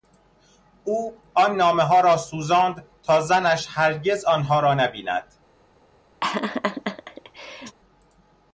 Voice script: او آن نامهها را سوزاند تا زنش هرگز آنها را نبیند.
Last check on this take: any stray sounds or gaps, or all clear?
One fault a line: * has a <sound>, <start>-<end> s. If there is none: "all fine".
* has a laugh, 6.2-7.8 s